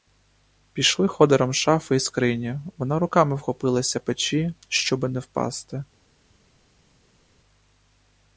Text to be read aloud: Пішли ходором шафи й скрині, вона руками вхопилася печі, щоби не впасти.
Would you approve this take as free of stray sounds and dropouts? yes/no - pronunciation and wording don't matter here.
yes